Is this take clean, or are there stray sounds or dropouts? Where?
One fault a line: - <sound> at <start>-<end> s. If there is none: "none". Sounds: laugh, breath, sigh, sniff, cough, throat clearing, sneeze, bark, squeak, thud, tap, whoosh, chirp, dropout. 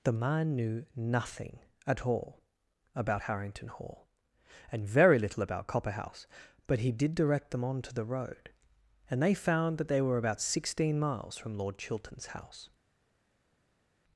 none